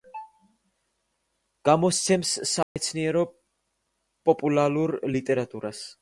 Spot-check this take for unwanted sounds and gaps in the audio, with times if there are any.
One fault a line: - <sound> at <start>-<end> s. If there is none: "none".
- dropout at 2.6-2.8 s